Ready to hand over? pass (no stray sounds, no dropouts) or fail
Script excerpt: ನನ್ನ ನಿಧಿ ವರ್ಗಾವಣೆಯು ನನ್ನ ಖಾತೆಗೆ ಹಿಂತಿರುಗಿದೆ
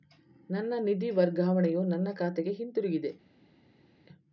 pass